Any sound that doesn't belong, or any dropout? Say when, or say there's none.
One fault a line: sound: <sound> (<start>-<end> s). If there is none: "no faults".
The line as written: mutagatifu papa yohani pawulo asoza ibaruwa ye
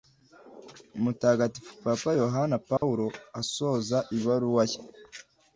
sound: dropout (2.8-2.8 s)